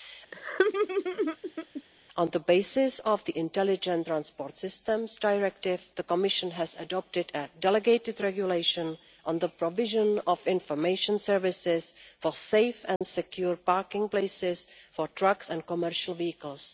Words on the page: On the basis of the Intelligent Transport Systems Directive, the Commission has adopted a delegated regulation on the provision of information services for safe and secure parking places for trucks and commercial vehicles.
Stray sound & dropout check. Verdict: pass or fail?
fail